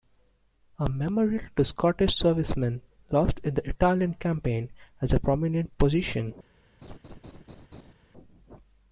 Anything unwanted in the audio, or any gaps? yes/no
yes